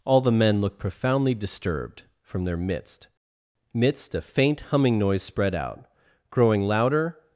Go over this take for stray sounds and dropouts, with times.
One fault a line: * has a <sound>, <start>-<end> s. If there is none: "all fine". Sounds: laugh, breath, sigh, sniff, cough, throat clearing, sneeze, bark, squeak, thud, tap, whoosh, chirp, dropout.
all fine